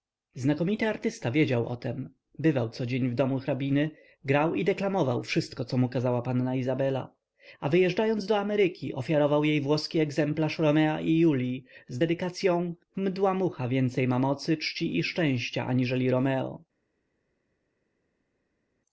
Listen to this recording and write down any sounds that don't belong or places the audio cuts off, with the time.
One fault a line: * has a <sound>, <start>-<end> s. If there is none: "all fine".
all fine